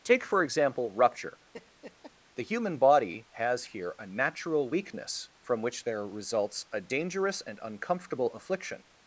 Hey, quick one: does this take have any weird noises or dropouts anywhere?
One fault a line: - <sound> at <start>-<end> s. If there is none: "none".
- laugh at 1.5-2.1 s